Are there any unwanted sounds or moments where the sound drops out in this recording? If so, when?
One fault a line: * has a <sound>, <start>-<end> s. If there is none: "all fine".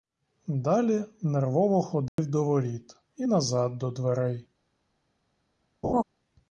* has a dropout, 2.1-2.2 s
* has a laugh, 5.8-6.0 s